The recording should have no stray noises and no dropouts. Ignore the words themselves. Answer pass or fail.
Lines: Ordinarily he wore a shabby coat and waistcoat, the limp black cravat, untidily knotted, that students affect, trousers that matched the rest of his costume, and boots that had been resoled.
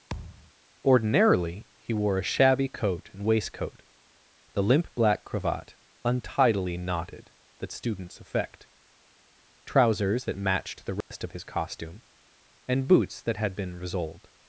fail